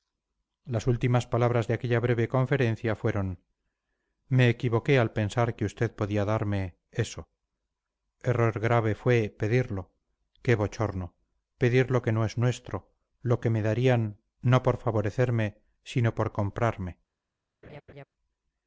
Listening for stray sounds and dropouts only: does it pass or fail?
fail